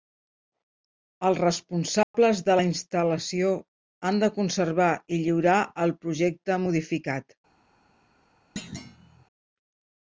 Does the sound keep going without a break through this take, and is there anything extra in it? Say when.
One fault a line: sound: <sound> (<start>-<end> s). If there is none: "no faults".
sound: dropout (2.0-2.1 s)
sound: thud (8.6-9.3 s)